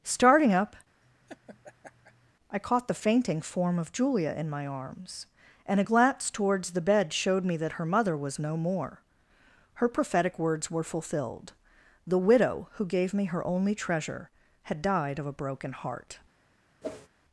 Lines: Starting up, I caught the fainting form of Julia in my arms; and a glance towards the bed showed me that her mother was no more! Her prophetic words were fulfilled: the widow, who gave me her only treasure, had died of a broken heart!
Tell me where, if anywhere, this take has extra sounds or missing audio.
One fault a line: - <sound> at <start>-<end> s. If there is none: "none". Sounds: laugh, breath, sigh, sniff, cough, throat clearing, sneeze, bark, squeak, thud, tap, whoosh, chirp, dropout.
- laugh at 1.0-2.3 s
- whoosh at 16.8-17.1 s